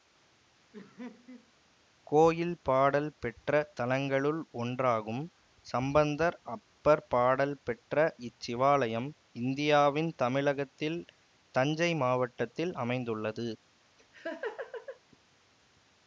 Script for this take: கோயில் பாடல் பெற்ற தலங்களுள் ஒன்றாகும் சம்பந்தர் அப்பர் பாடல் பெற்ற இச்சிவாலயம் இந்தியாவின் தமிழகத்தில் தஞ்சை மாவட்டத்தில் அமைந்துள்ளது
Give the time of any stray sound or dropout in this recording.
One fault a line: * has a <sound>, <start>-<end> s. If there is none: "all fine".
* has a laugh, 0.7-1.5 s
* has a laugh, 14.0-15.0 s